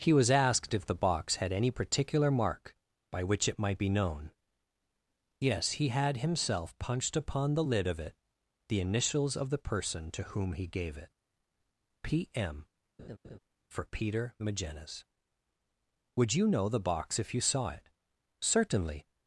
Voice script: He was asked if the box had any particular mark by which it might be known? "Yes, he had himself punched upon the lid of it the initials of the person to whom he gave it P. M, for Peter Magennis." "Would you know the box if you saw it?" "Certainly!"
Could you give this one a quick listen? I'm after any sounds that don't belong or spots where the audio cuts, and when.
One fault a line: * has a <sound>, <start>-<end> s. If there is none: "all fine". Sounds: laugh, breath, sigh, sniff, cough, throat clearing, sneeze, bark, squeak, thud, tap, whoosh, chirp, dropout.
* has a laugh, 13.0-13.4 s